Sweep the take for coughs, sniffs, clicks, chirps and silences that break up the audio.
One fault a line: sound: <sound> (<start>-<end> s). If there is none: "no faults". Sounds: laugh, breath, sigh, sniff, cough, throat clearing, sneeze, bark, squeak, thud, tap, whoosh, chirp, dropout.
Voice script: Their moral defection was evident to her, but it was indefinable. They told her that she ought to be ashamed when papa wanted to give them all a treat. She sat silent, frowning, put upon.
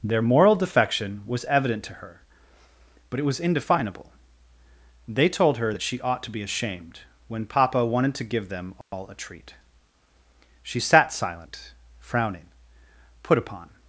sound: dropout (8.8-8.9 s)